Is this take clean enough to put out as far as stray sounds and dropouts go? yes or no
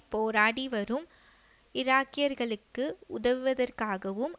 yes